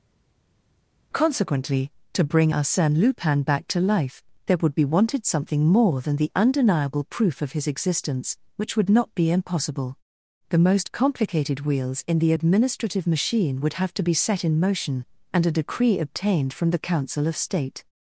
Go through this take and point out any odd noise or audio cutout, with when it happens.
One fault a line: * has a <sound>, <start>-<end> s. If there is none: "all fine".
all fine